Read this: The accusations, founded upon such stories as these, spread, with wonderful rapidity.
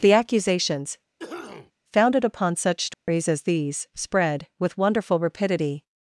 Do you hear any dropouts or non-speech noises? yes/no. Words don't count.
yes